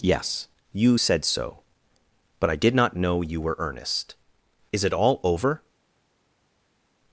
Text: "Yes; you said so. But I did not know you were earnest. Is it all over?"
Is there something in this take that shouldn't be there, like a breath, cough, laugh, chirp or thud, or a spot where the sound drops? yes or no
no